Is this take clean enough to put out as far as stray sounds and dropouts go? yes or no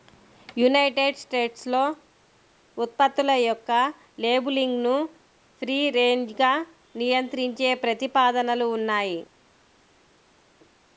yes